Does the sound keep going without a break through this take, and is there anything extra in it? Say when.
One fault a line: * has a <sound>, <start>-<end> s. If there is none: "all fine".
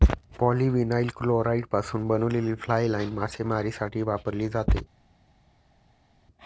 all fine